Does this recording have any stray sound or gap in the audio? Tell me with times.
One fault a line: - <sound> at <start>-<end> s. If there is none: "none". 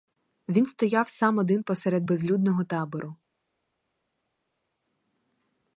none